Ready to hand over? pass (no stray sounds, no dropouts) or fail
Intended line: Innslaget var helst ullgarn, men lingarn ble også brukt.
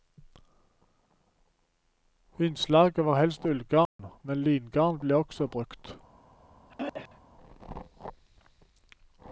fail